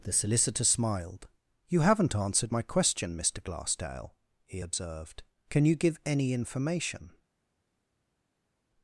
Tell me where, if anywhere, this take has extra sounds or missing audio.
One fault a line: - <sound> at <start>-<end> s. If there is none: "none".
none